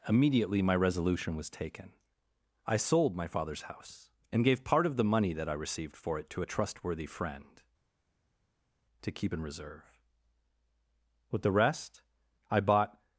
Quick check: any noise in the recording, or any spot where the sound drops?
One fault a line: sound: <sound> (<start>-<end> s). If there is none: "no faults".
no faults